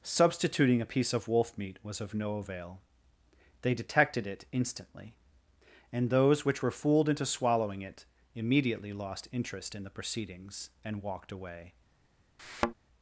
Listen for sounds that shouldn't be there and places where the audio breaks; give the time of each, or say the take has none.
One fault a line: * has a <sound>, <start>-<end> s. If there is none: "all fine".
* has a thud, 12.4-12.7 s